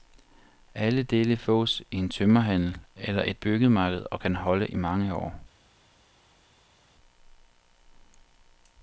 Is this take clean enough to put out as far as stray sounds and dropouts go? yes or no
yes